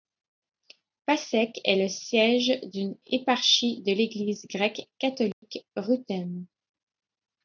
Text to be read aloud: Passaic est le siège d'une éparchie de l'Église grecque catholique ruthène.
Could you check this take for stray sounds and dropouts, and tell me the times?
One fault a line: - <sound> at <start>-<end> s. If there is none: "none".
- dropout at 5.3-5.4 s